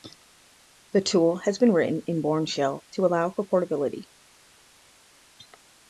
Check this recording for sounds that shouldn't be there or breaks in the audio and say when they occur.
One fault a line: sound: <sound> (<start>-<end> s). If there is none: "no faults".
no faults